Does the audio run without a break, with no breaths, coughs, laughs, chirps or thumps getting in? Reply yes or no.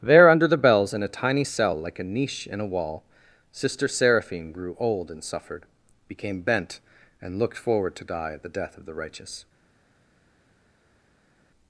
yes